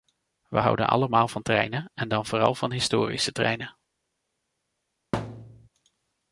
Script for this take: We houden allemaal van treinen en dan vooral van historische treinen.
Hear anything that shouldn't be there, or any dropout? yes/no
yes